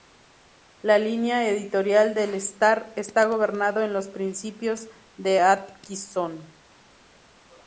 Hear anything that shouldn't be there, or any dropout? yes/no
no